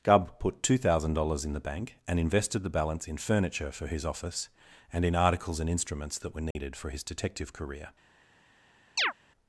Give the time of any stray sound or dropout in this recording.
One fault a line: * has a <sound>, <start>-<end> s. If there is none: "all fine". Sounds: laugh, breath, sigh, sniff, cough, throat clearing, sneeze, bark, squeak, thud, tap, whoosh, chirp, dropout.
* has a dropout, 6.5-6.6 s
* has a chirp, 9.0-9.1 s